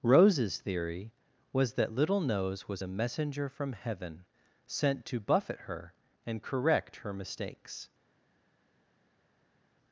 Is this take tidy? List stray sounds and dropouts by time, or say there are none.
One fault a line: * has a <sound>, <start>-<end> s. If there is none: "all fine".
all fine